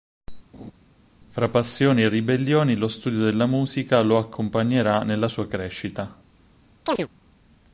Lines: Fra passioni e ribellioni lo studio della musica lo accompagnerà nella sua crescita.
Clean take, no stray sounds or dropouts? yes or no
no